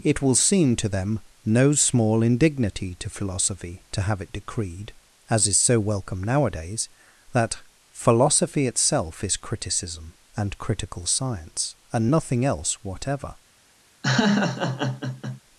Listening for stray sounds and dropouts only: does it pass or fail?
fail